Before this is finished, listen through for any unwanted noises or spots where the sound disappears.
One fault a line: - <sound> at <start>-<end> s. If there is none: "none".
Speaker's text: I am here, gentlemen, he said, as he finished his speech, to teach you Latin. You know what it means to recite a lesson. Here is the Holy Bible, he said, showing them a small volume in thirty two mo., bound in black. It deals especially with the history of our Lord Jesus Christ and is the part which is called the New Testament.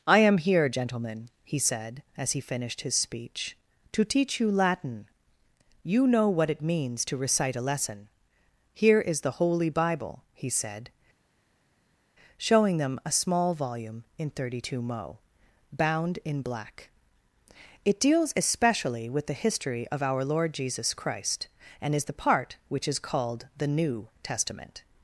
none